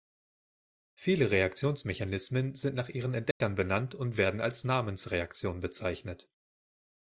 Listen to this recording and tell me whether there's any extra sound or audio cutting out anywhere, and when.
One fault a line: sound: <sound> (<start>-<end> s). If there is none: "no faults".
sound: dropout (3.3-3.4 s)